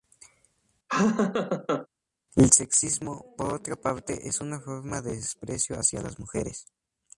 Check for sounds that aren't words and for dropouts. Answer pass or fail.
fail